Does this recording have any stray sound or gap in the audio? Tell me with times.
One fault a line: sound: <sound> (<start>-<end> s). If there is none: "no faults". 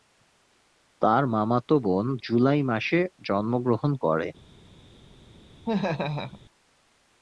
sound: laugh (5.6-6.4 s)